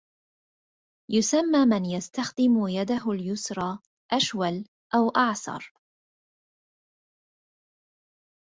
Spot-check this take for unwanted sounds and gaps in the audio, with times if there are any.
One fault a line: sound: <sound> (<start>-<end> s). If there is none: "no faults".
no faults